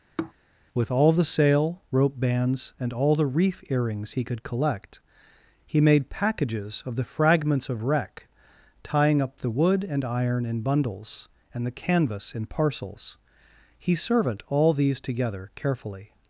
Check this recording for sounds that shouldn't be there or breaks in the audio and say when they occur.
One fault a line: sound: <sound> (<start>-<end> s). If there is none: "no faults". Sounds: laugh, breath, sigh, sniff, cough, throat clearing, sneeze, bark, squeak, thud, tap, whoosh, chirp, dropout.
sound: sigh (0.2-0.3 s)